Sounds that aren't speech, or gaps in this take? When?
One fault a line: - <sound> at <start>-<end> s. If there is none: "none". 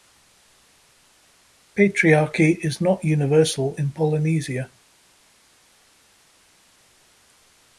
none